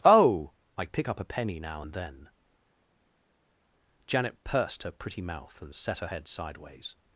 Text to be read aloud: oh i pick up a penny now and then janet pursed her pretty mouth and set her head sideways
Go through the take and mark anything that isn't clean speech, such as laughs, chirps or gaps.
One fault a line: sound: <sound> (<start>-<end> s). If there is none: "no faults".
no faults